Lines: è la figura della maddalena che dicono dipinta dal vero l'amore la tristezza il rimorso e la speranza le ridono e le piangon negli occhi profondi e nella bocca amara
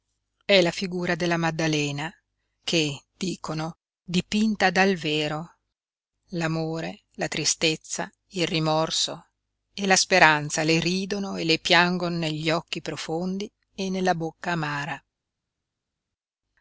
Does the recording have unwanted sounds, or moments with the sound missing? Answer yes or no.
no